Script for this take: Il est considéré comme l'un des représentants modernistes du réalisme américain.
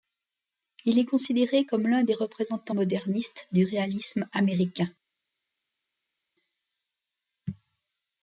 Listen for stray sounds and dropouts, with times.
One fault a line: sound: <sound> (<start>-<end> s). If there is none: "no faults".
no faults